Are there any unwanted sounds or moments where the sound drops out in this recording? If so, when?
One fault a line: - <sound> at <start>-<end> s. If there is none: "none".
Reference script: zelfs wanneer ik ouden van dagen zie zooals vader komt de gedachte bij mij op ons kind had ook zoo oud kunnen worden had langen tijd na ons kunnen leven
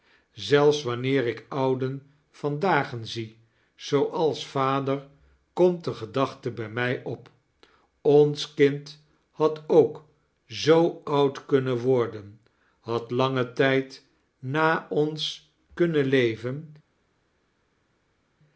none